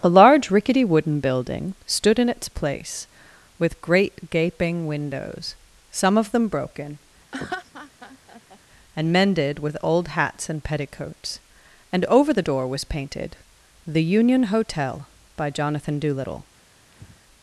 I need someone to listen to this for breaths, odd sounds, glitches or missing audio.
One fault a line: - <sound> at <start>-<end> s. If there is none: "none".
- laugh at 7.3-8.6 s
- breath at 16.9-17.2 s